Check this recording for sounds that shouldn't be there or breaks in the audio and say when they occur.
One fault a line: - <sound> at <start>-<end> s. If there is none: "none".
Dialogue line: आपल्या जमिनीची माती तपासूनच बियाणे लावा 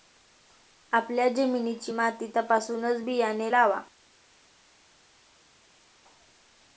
none